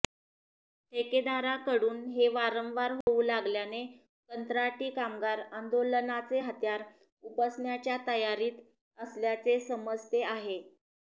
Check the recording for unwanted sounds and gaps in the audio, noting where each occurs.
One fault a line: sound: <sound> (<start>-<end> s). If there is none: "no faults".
sound: dropout (3.0-3.1 s)